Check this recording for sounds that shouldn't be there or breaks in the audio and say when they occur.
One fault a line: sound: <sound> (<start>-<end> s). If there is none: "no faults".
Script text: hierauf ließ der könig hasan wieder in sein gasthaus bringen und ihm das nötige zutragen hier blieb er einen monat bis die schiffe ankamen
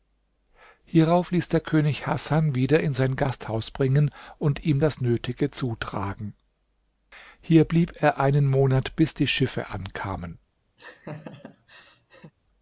sound: laugh (10.8-12.3 s)